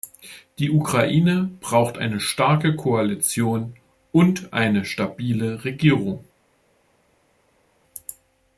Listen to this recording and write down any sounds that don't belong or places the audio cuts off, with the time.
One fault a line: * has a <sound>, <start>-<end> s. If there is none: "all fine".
all fine